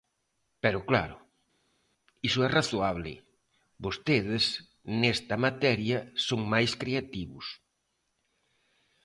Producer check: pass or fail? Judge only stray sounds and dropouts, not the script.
pass